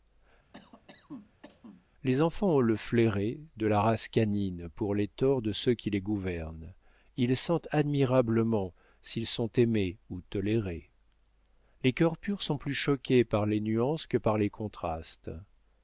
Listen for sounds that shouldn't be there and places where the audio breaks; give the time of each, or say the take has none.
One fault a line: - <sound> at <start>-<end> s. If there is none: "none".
- cough at 0.5-1.9 s